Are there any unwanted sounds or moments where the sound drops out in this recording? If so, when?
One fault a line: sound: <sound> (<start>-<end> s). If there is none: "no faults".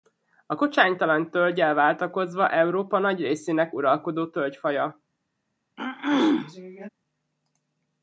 sound: throat clearing (5.8-6.9 s)